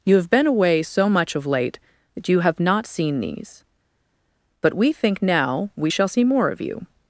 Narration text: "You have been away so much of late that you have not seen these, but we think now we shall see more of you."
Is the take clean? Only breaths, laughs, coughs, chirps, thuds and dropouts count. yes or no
yes